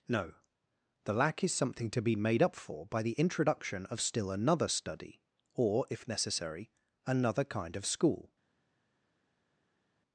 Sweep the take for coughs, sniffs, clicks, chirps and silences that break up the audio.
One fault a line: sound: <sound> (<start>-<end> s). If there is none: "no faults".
no faults